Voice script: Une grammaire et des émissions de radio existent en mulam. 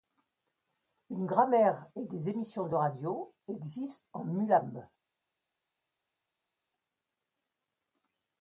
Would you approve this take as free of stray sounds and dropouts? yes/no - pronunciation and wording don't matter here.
yes